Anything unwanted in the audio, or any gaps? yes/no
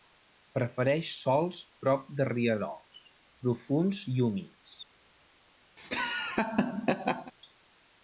yes